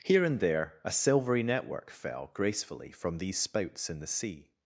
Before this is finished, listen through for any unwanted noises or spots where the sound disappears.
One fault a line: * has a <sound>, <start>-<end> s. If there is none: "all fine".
all fine